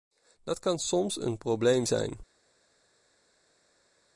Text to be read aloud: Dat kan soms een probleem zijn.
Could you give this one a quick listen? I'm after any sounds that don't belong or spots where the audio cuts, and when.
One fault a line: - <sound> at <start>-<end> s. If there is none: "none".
none